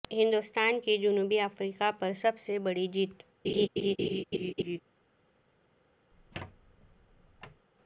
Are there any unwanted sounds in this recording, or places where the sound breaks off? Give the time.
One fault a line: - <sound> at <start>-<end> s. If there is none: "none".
- laugh at 3.4-4.8 s
- squeak at 6.1-7.7 s